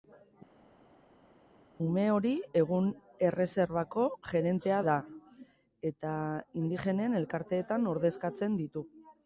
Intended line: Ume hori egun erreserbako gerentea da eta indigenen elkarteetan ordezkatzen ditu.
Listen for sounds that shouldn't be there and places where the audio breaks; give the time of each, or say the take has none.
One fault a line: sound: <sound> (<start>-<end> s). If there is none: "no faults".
no faults